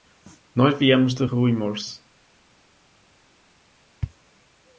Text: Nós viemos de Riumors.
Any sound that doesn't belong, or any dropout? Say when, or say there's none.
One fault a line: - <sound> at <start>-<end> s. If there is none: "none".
none